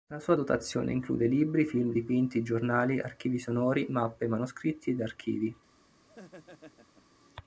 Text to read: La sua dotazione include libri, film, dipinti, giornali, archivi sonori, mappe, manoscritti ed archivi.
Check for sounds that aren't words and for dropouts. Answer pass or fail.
fail